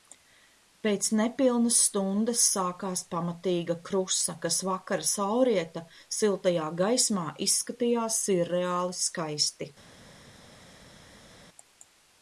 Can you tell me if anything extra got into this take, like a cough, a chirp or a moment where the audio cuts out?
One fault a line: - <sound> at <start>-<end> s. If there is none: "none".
none